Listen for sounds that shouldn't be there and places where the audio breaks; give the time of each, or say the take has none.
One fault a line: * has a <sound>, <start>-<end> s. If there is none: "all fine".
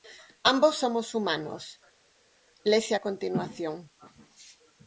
all fine